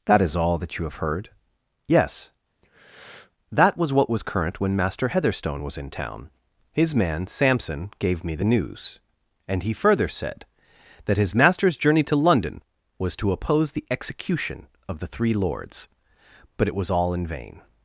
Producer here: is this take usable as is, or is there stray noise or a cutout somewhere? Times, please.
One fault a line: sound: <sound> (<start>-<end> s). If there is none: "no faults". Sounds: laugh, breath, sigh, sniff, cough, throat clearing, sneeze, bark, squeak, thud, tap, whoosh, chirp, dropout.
sound: breath (2.6-3.3 s)